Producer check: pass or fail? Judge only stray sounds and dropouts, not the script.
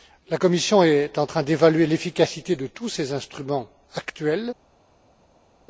pass